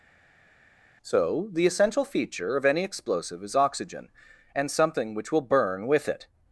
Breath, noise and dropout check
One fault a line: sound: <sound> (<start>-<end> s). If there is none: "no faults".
no faults